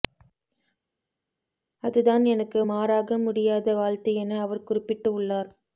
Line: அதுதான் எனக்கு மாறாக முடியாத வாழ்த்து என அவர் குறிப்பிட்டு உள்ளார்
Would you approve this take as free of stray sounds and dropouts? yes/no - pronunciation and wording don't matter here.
yes